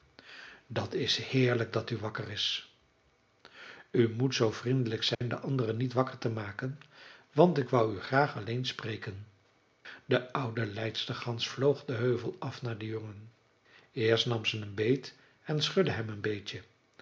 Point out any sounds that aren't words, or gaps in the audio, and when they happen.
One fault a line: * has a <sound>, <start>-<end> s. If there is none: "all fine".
* has a dropout, 5.1-5.2 s